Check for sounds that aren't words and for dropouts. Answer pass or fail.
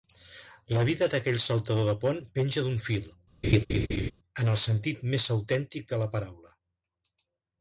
fail